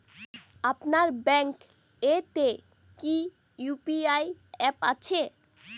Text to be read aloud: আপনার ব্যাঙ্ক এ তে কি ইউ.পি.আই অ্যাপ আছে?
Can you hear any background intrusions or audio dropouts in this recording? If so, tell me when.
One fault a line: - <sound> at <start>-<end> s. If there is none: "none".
none